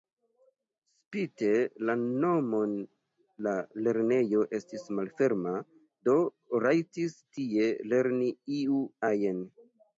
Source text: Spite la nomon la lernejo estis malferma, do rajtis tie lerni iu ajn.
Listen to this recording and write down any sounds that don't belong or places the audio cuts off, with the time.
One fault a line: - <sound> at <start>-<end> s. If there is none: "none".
none